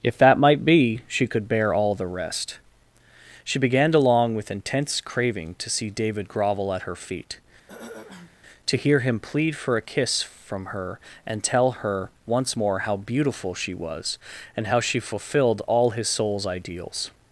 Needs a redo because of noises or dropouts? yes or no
yes